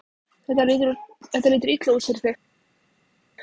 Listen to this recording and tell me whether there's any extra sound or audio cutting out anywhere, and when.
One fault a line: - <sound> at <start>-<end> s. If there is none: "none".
none